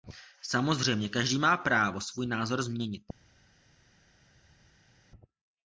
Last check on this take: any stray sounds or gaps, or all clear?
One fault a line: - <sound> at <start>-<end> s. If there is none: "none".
none